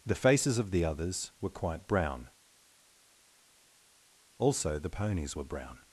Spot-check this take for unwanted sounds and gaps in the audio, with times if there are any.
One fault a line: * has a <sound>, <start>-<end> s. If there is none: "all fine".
all fine